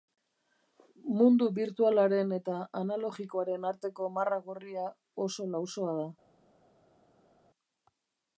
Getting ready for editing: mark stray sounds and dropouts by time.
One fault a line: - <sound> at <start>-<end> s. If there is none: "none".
none